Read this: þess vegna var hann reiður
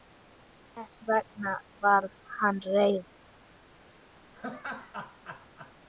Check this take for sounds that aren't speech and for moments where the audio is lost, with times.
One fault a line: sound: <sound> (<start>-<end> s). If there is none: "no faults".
sound: laugh (4.3-5.7 s)